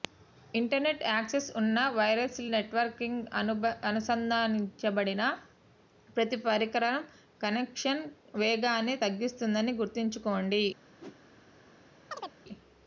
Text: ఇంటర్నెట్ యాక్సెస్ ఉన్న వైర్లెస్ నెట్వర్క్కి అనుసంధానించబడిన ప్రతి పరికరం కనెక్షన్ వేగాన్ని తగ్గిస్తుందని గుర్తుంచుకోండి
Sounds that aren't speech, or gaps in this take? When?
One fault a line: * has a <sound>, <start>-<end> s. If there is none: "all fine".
* has a whoosh, 11.0-11.2 s
* has a chirp, 12.1-12.3 s